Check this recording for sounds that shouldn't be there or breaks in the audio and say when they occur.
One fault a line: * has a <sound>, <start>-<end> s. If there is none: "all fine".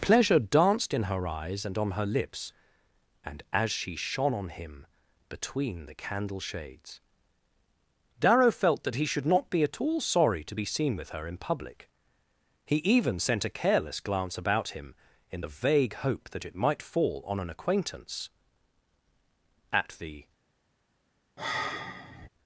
* has a sigh, 21.4-22.3 s